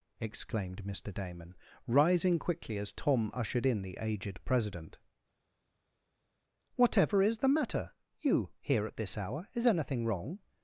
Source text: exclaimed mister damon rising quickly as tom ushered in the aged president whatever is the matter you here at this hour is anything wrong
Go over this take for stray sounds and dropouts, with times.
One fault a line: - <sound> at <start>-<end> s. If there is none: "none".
none